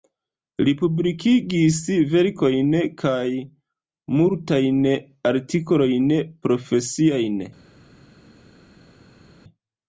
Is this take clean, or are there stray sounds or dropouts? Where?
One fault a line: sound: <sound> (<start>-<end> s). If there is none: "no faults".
no faults